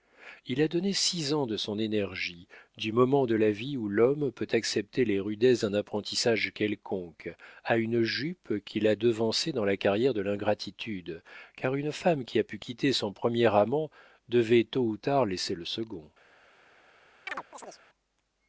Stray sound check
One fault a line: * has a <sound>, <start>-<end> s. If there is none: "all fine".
* has a chirp, 17.3-17.8 s